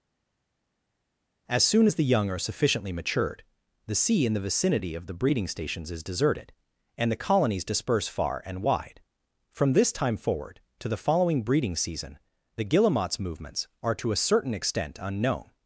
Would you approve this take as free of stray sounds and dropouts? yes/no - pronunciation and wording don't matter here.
yes